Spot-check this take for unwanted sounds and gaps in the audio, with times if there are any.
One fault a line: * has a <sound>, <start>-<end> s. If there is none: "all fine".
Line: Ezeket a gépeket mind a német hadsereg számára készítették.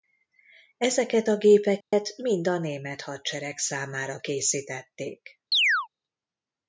* has a dropout, 1.8-1.9 s
* has a chirp, 5.5-5.9 s